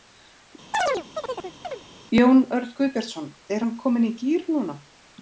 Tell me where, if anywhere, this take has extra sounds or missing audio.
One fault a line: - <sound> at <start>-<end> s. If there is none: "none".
- chirp at 0.7-1.8 s